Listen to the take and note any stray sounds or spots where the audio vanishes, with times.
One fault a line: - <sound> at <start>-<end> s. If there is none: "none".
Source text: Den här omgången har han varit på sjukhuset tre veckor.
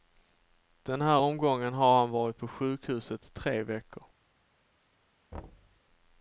- thud at 5.3-5.8 s